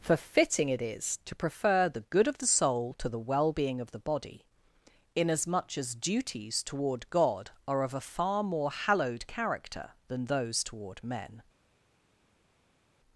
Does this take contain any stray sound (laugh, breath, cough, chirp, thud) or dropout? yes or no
no